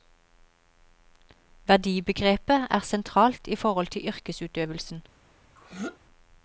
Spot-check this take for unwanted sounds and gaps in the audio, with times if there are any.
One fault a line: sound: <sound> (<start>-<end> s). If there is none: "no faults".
sound: throat clearing (5.6-6.0 s)